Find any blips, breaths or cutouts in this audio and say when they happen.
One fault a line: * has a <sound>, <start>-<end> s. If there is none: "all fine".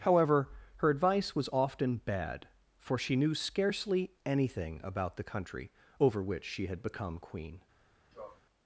* has a sneeze, 8.1-8.4 s